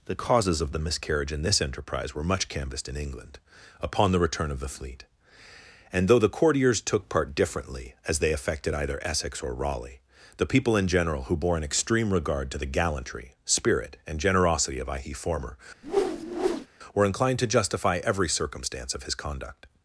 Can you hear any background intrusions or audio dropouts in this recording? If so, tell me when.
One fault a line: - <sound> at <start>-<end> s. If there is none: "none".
- whoosh at 15.8-16.7 s